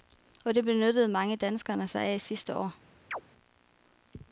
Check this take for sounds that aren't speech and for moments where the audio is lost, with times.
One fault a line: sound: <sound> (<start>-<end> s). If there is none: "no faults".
sound: chirp (3.1-3.2 s)